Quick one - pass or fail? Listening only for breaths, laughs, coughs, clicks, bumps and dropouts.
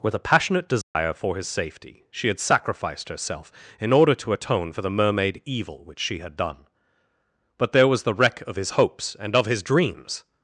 fail